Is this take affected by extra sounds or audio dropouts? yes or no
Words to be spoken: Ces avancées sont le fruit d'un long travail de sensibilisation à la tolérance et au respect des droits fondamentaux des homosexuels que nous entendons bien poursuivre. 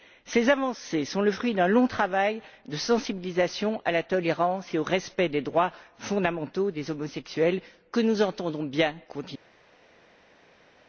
no